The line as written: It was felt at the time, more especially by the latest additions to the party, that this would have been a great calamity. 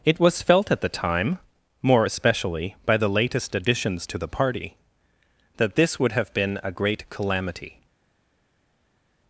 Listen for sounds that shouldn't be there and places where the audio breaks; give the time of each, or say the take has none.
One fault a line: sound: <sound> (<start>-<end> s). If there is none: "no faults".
no faults